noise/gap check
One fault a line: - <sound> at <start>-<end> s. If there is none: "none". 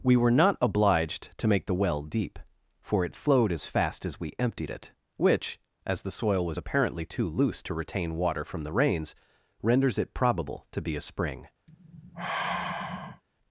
- sigh at 11.7-13.2 s